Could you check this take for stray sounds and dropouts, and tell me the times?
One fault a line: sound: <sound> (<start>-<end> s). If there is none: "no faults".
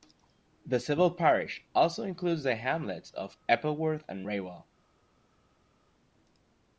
no faults